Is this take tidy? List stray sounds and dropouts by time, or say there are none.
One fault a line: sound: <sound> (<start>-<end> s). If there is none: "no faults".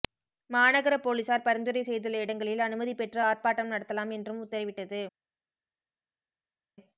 no faults